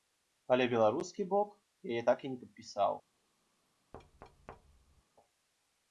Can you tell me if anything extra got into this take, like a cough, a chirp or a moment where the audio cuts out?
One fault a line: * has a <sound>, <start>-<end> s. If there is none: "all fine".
* has a thud, 3.9-5.0 s